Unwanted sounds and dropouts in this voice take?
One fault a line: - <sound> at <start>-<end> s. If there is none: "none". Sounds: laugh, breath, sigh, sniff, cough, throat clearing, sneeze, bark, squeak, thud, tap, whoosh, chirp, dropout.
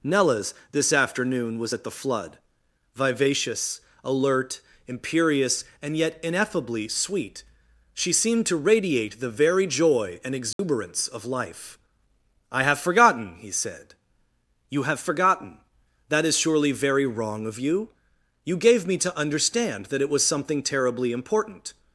- dropout at 10.5-10.6 s